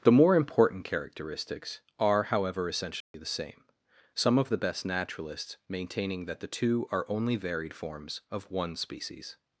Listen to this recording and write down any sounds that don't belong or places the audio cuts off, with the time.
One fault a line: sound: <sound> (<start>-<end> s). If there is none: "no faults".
sound: dropout (3.0-3.1 s)